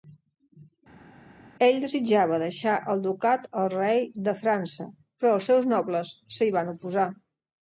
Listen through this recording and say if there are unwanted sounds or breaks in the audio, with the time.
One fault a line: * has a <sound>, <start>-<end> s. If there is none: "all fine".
all fine